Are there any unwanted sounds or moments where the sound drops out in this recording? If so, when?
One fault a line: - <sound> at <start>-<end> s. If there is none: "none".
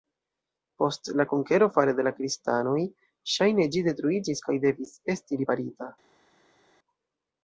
none